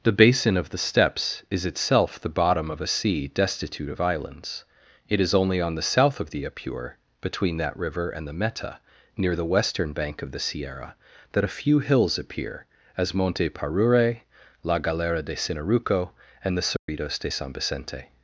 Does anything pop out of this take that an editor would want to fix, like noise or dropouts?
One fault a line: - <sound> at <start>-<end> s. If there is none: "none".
- dropout at 16.8-16.9 s